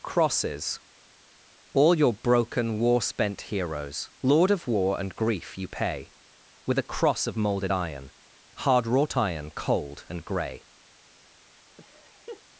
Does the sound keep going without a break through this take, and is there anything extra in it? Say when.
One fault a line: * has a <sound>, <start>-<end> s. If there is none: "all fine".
* has a laugh, 11.8-12.4 s